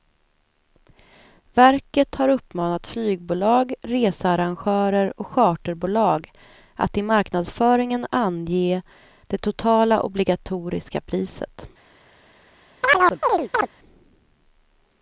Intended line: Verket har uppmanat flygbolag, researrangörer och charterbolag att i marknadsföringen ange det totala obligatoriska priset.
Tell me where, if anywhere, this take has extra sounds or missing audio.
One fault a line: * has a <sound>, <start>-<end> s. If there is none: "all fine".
* has a chirp, 12.8-13.7 s